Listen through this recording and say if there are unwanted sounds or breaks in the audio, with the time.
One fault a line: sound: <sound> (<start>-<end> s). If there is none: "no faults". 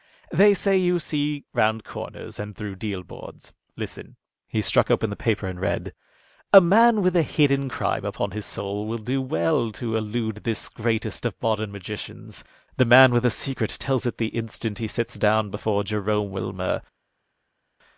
no faults